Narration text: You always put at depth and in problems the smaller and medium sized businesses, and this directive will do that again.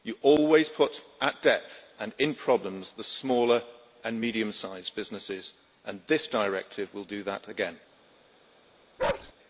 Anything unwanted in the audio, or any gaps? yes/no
yes